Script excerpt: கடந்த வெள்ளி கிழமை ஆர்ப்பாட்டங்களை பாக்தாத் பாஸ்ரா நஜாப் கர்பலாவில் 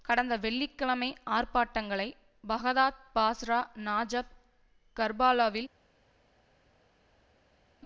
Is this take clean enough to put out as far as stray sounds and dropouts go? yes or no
yes